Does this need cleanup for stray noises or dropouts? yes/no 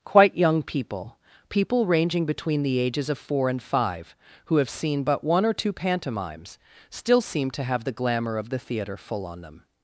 no